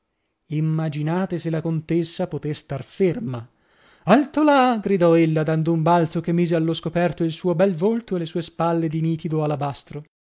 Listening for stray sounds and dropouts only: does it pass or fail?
pass